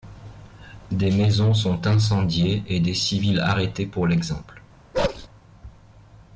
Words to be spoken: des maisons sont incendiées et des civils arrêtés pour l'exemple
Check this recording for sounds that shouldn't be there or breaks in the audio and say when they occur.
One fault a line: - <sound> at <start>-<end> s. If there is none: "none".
- bark at 4.9-5.3 s